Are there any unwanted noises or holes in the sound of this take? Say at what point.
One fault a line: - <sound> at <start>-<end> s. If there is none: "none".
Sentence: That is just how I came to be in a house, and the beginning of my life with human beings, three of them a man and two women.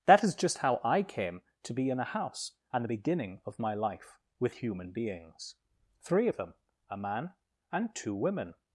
none